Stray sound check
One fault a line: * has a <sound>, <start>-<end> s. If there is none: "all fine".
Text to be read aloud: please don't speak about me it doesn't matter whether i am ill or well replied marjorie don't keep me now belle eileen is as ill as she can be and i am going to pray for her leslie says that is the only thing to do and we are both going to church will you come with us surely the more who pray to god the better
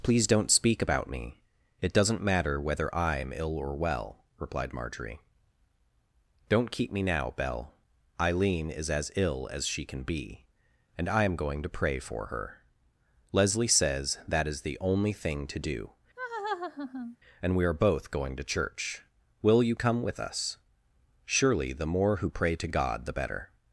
* has a laugh, 16.2-17.2 s